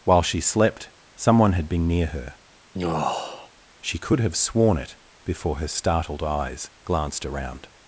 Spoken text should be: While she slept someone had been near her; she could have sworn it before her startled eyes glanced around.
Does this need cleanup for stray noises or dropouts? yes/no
yes